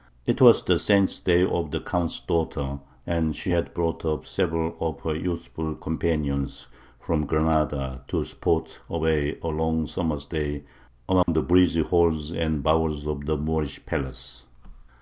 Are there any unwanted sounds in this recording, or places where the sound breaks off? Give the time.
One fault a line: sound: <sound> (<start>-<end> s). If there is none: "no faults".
sound: dropout (11.2-11.3 s)